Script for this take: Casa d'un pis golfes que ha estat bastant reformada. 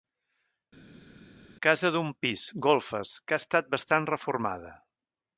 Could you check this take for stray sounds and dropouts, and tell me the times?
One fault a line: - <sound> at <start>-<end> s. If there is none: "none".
none